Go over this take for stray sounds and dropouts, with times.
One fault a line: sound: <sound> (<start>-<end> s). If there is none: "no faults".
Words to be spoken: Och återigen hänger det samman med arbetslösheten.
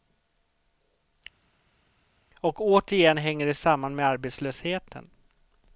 no faults